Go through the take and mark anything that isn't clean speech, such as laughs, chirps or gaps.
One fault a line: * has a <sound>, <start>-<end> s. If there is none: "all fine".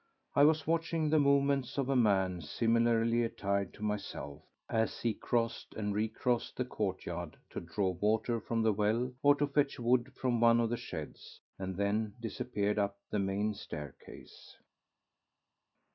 all fine